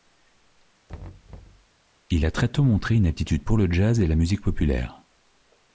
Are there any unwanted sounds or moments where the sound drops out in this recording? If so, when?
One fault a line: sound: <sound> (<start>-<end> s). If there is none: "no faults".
sound: thud (0.9-1.7 s)